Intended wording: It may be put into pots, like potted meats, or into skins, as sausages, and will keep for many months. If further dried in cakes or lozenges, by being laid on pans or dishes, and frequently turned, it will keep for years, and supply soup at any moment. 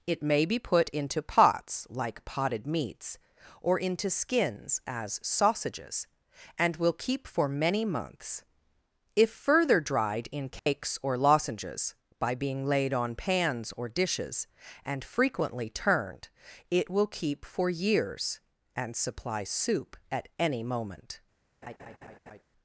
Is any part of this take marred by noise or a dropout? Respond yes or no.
yes